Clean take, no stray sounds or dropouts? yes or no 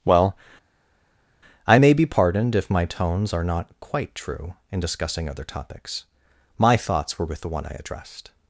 yes